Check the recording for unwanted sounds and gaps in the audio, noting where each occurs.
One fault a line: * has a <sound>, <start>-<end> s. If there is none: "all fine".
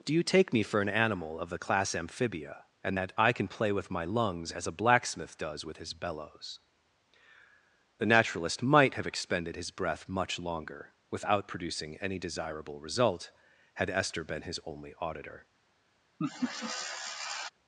* has a laugh, 16.2-17.5 s